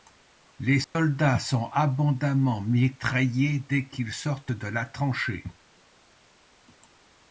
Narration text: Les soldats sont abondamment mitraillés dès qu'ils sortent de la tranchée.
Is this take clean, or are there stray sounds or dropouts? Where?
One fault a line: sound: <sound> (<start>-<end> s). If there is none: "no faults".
sound: dropout (0.8-1.0 s)